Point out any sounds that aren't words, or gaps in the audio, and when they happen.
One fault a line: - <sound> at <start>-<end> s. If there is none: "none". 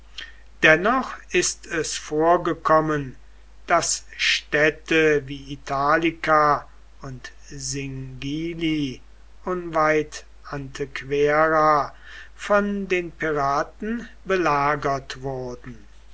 none